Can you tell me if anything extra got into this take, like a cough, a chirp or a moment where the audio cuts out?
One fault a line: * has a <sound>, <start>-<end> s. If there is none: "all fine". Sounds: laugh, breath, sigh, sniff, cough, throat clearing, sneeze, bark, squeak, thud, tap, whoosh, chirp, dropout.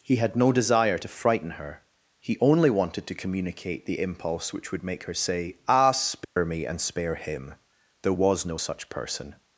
* has a dropout, 6.2-6.4 s